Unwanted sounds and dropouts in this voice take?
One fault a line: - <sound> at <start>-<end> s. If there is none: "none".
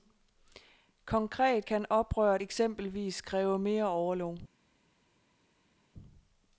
none